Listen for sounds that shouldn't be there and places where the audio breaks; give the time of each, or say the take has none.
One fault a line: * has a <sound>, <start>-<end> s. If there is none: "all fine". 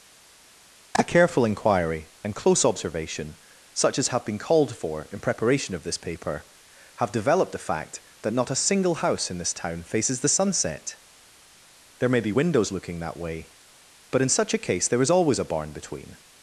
all fine